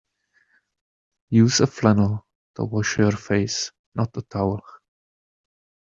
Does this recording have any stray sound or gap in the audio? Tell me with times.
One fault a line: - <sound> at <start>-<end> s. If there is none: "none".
none